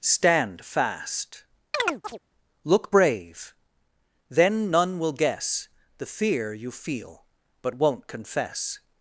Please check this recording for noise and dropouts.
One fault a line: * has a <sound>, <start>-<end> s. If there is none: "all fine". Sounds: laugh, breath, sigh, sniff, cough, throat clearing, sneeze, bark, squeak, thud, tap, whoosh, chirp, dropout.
* has a chirp, 1.7-2.2 s